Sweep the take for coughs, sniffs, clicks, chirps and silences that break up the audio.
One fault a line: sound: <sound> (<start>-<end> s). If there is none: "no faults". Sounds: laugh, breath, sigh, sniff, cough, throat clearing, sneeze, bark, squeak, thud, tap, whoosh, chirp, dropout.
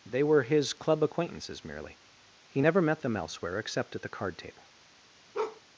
sound: bark (5.3-5.6 s)